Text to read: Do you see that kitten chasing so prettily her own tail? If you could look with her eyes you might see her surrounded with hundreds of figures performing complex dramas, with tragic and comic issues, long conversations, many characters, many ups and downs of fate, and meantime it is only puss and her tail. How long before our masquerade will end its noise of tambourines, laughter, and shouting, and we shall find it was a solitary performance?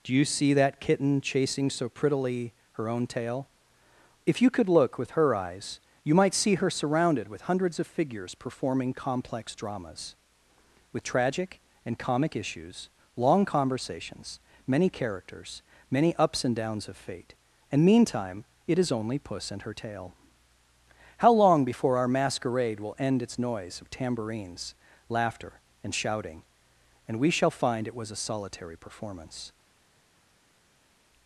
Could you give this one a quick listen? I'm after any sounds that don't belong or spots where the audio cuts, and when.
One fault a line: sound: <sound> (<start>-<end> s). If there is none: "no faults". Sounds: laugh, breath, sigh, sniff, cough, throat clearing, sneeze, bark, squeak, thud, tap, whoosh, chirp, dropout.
no faults